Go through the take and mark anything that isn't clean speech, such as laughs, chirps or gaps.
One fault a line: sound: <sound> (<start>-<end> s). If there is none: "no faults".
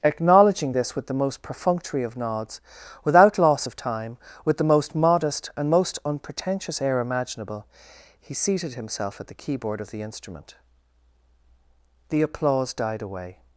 no faults